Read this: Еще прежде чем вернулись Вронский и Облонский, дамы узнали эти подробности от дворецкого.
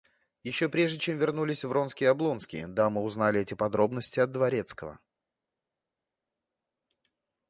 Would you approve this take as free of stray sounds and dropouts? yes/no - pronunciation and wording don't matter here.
yes